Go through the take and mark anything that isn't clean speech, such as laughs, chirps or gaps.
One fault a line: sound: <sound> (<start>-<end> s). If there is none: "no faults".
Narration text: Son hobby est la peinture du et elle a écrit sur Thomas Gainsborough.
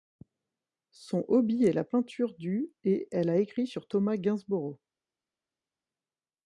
no faults